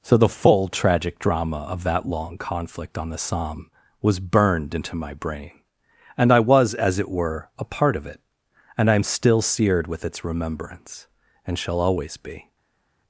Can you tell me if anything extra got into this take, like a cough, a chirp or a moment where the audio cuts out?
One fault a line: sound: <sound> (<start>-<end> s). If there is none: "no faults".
no faults